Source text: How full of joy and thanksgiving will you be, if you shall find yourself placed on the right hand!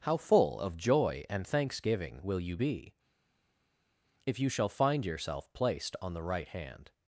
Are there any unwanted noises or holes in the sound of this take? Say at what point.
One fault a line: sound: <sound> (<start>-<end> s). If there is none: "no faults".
no faults